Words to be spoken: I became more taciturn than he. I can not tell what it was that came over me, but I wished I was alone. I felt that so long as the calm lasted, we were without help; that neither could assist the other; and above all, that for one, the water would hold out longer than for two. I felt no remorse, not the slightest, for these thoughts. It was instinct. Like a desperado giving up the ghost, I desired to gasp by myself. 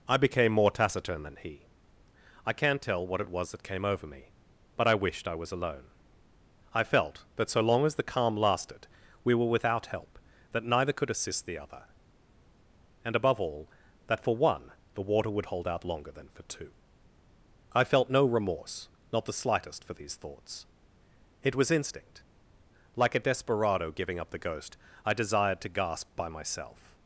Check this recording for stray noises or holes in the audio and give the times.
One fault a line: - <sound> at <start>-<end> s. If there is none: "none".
none